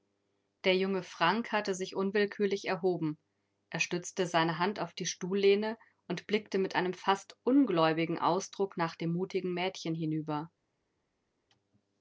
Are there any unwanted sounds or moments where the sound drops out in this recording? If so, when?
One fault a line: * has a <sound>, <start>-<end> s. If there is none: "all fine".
all fine